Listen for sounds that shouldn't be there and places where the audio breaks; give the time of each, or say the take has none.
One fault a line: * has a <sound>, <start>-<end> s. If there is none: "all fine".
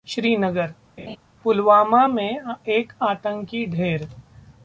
* has a laugh, 1.0-1.2 s